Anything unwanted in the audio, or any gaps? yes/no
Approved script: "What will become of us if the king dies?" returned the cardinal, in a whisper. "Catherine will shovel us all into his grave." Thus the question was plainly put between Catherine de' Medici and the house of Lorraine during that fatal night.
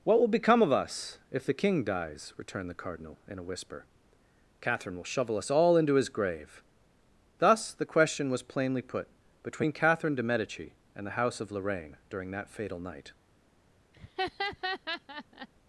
yes